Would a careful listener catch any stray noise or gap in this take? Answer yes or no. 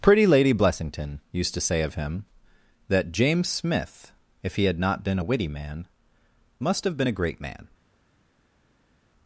no